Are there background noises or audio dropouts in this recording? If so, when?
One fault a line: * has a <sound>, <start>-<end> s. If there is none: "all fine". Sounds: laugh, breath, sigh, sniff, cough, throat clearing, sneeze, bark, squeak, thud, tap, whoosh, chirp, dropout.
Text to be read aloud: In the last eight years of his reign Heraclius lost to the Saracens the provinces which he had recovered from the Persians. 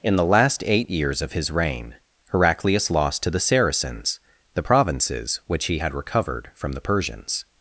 all fine